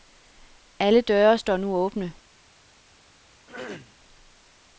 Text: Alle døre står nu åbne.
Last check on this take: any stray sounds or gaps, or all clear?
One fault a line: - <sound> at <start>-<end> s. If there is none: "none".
- throat clearing at 3.5-4.0 s